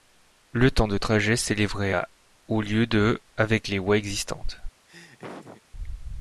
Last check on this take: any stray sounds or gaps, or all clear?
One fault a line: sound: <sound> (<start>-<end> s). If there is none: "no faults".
sound: laugh (4.9-5.6 s)